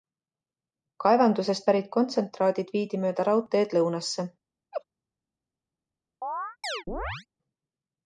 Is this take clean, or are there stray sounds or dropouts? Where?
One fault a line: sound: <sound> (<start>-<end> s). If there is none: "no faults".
sound: laugh (4.7-4.8 s)
sound: chirp (6.2-7.3 s)